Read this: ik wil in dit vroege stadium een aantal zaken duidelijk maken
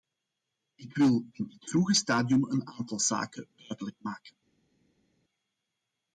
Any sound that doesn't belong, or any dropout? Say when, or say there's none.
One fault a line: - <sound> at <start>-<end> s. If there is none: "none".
none